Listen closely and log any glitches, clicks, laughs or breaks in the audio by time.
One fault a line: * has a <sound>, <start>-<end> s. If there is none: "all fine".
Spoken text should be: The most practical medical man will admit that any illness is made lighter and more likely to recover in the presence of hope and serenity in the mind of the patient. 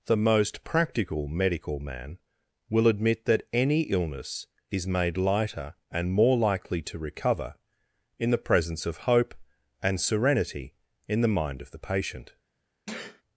* has a sneeze, 12.9-13.2 s